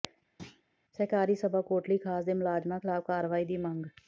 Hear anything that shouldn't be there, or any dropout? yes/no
yes